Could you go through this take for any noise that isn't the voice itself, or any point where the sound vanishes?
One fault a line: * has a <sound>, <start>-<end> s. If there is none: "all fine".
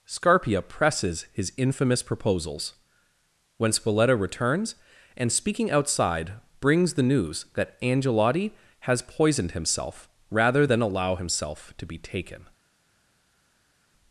all fine